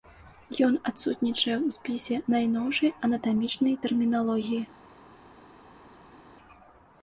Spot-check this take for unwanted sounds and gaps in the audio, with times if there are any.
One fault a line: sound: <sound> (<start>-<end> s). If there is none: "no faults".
no faults